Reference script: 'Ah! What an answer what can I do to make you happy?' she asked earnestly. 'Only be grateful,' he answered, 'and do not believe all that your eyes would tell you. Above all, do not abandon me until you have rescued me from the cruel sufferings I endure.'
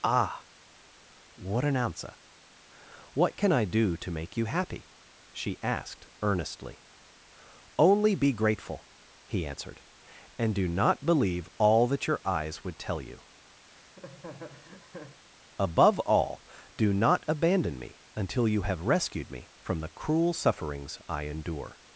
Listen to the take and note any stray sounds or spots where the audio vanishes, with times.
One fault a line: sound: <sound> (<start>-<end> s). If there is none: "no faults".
sound: laugh (13.6-15.2 s)